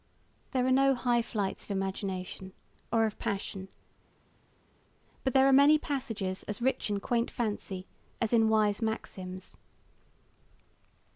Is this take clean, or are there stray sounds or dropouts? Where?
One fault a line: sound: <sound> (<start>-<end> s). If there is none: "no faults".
no faults